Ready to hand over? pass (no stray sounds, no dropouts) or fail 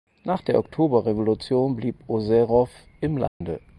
fail